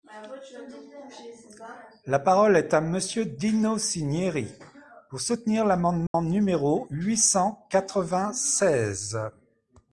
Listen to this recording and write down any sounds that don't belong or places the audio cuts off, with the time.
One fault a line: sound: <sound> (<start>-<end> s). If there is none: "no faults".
sound: dropout (6.1-6.1 s)